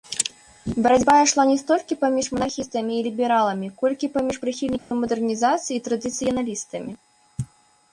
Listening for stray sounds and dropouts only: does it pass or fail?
fail